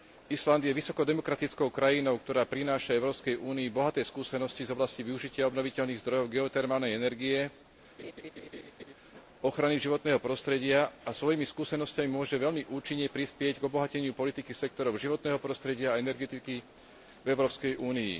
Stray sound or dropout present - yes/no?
yes